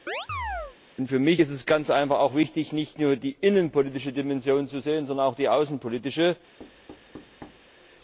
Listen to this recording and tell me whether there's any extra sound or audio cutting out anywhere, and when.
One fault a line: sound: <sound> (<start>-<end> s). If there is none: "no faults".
sound: chirp (0.1-0.8 s)
sound: thud (6.6-7.7 s)